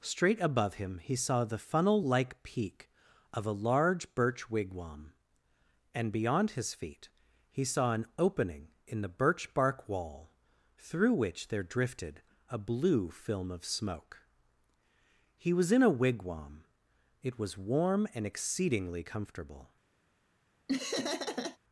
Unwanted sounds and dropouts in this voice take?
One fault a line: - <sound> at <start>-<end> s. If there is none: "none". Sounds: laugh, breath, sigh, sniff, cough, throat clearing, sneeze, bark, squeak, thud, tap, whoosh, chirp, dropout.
- laugh at 20.7-21.6 s